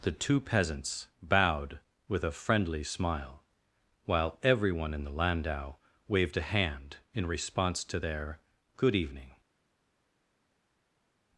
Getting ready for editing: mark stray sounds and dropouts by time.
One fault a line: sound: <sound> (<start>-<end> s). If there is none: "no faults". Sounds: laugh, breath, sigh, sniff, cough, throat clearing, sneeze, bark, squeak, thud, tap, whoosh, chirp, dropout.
no faults